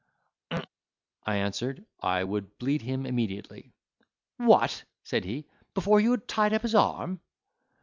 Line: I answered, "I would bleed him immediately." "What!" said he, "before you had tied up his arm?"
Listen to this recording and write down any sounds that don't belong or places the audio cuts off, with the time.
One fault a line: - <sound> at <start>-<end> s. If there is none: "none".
- throat clearing at 0.5-0.7 s